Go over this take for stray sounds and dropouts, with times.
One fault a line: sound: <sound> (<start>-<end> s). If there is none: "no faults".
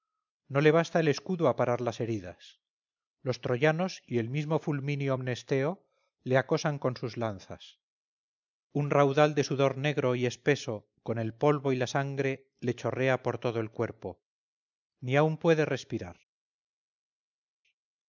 no faults